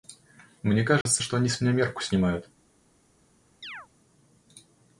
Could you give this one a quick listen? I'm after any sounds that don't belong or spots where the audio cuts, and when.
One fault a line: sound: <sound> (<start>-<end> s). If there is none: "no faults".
sound: dropout (1.0-1.1 s)
sound: chirp (3.6-3.9 s)